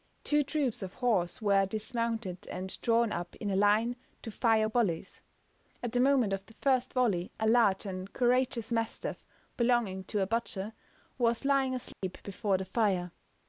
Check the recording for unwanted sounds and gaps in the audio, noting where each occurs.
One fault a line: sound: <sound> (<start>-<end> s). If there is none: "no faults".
sound: dropout (11.9-12.0 s)